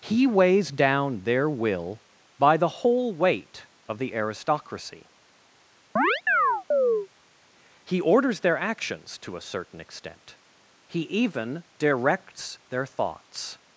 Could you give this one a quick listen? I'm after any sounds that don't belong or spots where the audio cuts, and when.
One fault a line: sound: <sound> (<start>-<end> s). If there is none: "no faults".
sound: chirp (6.0-7.1 s)